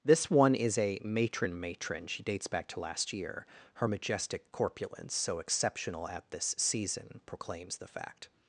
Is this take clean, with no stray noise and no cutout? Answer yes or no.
yes